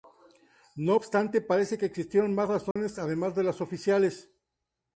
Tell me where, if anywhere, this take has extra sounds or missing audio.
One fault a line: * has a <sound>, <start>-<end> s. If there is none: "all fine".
* has a dropout, 2.7-2.8 s